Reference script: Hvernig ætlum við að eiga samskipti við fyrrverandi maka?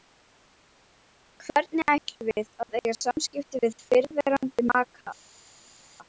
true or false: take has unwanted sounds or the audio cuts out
false